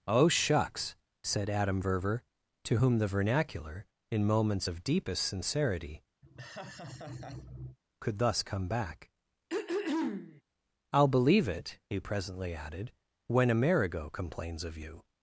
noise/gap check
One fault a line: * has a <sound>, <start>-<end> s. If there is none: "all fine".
* has a laugh, 6.2-7.8 s
* has a throat clearing, 9.5-10.4 s